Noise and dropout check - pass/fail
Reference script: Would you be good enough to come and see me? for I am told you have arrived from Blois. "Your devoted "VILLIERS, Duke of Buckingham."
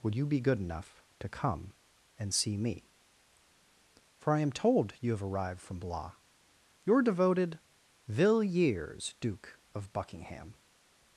pass